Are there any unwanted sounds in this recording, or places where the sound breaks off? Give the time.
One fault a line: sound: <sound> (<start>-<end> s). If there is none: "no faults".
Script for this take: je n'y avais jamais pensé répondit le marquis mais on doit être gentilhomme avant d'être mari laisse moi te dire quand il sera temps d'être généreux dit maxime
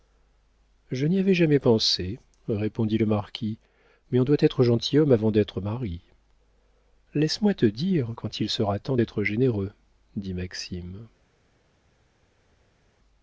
no faults